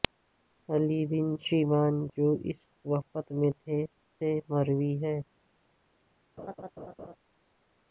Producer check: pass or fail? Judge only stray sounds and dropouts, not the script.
fail